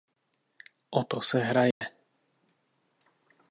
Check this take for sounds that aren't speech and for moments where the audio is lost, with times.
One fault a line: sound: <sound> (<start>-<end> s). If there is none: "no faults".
sound: dropout (1.7-1.8 s)